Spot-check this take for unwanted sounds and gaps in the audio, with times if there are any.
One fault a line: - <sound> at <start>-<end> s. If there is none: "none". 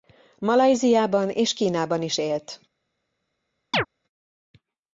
- chirp at 3.7-3.9 s